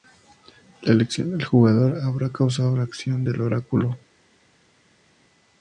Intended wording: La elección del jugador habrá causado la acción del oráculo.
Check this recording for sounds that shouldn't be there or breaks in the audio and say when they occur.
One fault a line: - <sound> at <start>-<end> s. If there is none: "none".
none